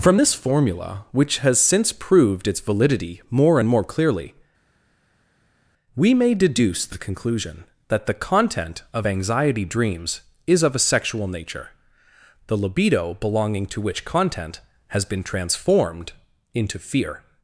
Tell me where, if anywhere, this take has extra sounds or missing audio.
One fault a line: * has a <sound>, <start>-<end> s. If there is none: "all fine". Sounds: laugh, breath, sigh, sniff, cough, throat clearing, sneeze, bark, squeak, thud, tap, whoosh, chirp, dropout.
all fine